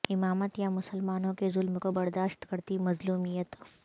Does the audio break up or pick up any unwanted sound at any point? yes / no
no